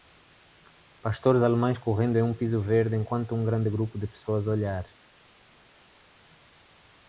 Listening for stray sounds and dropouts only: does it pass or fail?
pass